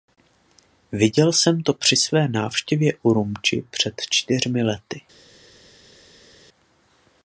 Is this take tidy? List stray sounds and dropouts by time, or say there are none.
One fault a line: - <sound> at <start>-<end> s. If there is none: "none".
none